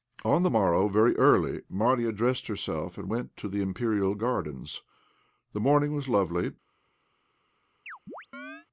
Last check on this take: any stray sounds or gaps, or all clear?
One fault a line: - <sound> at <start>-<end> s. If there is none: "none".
- chirp at 7.9-8.7 s